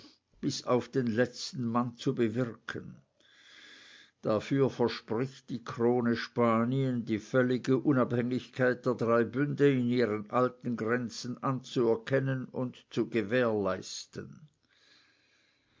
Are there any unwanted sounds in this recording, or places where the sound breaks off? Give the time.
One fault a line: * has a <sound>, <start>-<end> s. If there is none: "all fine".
all fine